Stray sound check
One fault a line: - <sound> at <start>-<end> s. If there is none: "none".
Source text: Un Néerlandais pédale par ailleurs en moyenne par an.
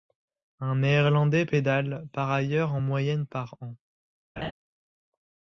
- laugh at 4.4-4.5 s